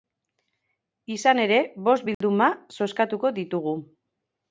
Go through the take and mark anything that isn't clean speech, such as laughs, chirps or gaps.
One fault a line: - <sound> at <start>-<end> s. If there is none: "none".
- dropout at 2.1-2.2 s